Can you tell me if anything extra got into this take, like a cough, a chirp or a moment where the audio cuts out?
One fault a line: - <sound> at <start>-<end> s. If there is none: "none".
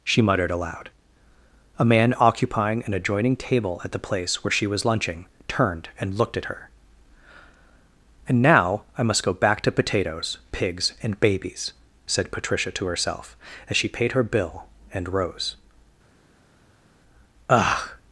none